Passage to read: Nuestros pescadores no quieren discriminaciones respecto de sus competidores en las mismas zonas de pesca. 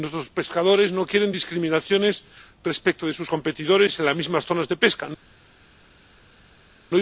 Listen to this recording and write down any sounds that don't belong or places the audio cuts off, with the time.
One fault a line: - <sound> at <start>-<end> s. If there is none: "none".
none